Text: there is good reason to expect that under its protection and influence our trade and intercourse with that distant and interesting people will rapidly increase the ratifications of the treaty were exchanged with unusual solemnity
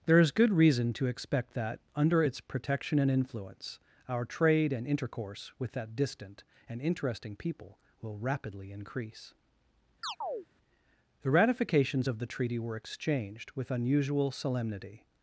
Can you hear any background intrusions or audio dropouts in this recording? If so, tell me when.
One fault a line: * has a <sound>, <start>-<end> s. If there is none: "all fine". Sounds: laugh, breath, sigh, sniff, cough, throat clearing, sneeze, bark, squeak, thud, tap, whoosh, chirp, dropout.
* has a chirp, 10.0-10.5 s